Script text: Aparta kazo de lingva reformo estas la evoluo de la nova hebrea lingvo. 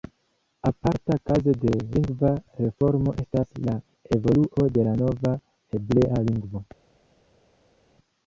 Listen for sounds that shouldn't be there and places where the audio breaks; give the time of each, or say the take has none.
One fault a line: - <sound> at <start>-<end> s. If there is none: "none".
none